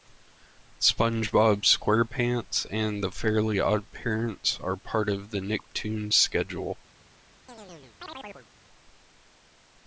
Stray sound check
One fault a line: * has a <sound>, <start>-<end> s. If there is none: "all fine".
* has a chirp, 7.5-8.5 s